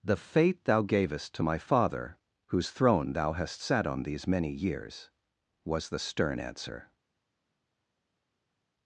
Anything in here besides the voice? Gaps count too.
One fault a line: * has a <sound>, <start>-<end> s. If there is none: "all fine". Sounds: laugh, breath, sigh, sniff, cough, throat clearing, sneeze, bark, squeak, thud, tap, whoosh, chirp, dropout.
all fine